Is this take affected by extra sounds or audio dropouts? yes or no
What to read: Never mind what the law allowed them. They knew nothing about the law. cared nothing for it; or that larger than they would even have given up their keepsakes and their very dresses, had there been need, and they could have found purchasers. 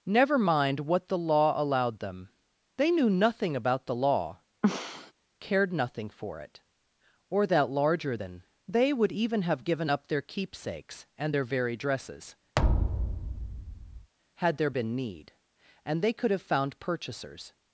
yes